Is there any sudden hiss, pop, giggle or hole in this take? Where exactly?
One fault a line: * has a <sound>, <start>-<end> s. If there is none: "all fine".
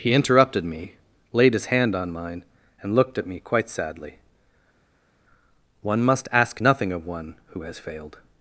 all fine